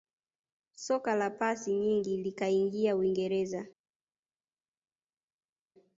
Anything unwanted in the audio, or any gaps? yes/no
no